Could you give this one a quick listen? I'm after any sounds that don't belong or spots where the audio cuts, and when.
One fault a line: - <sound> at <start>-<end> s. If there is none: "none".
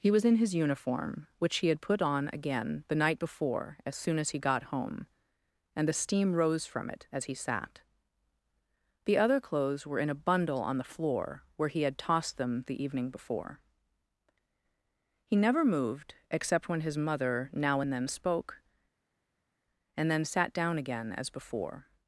none